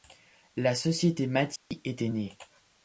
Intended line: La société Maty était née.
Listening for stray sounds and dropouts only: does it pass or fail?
fail